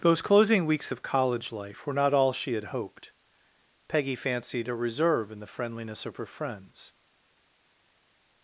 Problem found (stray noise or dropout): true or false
false